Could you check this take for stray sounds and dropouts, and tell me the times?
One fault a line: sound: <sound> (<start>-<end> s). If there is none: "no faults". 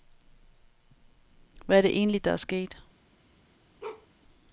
sound: bark (3.8-4.1 s)